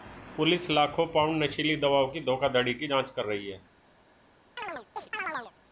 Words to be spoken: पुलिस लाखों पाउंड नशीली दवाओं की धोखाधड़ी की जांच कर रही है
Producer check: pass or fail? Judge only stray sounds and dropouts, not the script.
fail